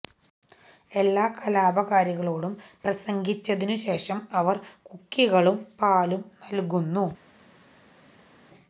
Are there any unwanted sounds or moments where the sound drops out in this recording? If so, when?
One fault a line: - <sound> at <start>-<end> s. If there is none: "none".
none